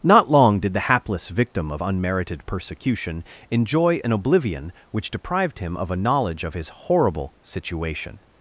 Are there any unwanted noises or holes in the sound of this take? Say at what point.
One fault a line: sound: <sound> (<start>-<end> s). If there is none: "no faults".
no faults